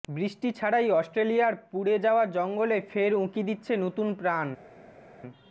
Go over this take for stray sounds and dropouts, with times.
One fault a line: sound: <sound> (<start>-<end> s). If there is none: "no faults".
no faults